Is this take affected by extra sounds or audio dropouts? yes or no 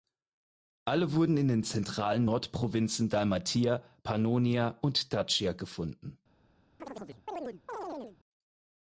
yes